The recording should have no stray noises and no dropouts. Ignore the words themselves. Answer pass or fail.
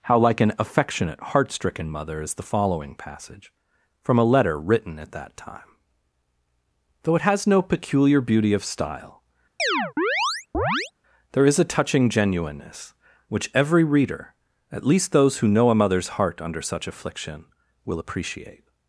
fail